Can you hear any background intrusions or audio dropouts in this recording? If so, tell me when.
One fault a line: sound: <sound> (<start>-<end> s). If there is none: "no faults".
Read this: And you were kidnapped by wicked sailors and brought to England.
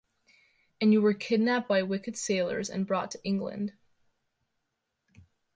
no faults